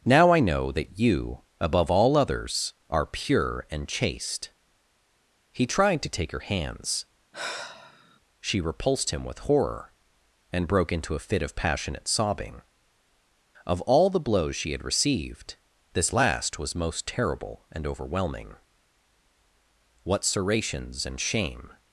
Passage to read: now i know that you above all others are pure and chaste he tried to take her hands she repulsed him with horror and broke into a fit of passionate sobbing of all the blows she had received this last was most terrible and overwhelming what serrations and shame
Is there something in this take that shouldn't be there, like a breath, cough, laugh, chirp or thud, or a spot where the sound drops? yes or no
yes